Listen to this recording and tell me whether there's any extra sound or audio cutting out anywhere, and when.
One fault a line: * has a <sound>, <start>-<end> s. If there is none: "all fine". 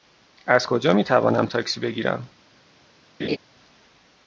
* has a laugh, 3.2-3.4 s